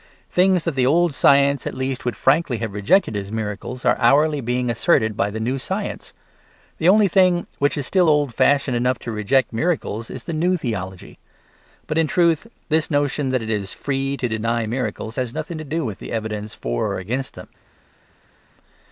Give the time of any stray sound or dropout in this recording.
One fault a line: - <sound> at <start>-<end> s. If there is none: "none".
none